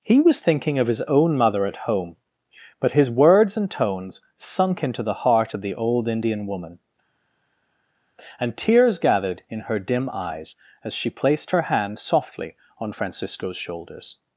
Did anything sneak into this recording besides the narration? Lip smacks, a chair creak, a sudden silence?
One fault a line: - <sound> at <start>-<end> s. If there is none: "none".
none